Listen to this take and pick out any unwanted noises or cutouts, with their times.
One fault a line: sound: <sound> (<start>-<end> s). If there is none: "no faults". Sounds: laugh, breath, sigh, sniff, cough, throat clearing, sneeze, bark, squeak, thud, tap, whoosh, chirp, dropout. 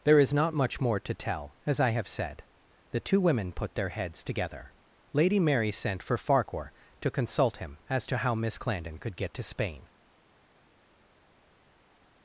no faults